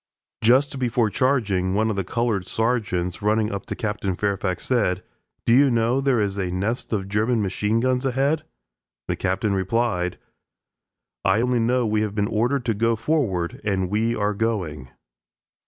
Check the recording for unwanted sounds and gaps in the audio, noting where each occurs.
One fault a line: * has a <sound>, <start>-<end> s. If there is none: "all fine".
all fine